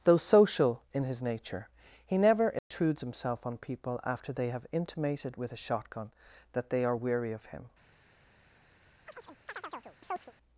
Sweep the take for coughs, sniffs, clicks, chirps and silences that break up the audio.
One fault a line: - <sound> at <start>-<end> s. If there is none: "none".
- dropout at 2.6-2.7 s
- chirp at 9.1-10.3 s